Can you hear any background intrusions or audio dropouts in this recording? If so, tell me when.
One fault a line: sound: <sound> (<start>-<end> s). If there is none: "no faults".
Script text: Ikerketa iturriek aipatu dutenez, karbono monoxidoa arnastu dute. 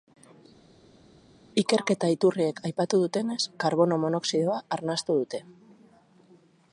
no faults